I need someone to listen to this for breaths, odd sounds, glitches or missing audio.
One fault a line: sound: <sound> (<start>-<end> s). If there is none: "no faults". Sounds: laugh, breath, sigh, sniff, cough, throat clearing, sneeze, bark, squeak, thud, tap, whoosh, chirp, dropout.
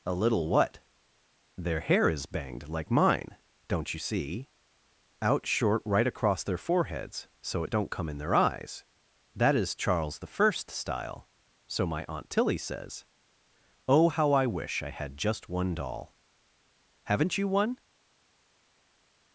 no faults